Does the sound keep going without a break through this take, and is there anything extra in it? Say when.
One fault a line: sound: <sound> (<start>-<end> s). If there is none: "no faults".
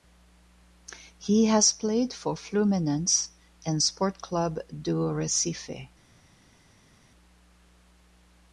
no faults